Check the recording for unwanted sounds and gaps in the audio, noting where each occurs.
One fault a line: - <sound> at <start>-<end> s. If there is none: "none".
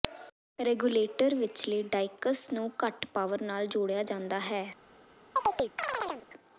- chirp at 5.4-6.3 s